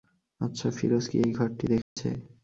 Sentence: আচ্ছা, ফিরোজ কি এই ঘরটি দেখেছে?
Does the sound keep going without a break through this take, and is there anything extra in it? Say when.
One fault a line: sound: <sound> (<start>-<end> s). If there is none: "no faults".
sound: dropout (1.8-2.0 s)